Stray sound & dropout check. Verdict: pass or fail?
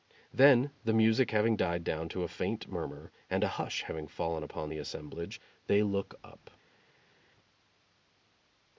pass